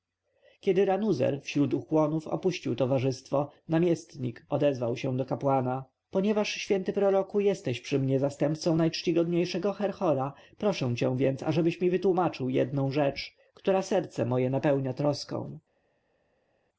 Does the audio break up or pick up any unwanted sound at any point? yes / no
no